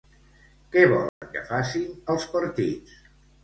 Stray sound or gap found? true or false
true